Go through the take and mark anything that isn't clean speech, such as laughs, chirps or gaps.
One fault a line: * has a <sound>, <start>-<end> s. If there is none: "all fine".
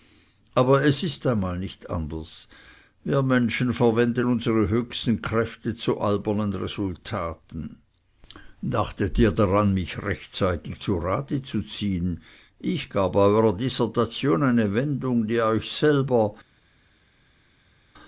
all fine